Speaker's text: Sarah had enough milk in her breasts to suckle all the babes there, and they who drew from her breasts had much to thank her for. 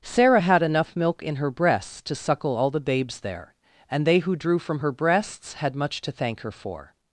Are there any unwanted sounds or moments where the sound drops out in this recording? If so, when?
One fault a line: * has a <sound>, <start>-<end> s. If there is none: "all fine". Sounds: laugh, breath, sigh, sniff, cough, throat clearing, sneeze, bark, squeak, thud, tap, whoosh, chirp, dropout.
all fine